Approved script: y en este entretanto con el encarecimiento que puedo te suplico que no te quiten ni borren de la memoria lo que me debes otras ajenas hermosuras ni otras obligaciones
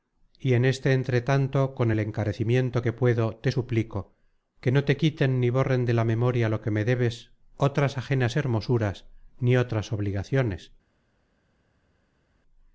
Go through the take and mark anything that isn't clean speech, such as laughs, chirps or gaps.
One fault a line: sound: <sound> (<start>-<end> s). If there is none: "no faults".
no faults